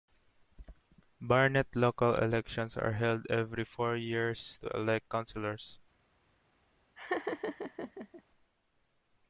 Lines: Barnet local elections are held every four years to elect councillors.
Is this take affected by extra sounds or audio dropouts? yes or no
yes